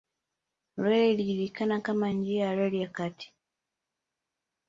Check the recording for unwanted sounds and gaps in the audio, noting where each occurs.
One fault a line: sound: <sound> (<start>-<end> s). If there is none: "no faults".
no faults